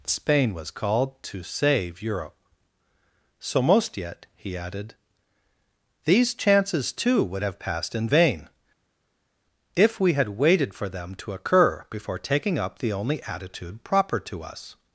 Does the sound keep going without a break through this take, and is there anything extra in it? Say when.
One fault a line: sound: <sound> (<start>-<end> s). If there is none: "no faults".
no faults